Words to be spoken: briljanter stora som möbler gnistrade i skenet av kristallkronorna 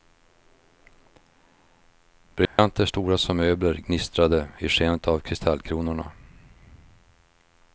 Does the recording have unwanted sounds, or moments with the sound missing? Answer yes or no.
yes